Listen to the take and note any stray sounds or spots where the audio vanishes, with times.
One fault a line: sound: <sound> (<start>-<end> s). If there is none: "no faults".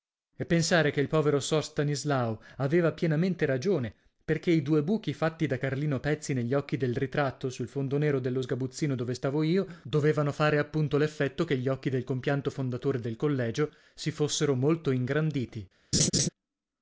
sound: laugh (15.9-16.3 s)